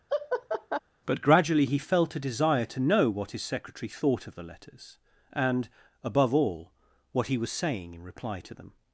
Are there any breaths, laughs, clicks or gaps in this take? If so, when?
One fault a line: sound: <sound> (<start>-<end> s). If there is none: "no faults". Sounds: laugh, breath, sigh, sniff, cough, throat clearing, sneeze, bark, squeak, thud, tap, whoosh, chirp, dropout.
sound: laugh (0.1-0.8 s)